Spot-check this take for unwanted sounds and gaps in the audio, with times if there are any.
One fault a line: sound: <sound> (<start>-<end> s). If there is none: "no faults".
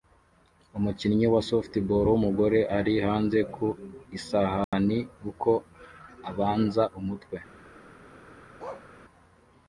sound: dropout (4.6-4.7 s)
sound: bark (8.6-8.9 s)